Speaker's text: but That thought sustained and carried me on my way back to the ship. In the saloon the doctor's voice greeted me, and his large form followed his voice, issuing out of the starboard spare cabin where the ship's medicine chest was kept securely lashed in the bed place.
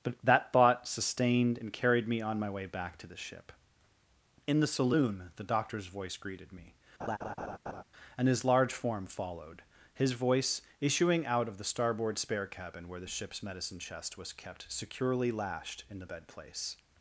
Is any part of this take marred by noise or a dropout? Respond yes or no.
yes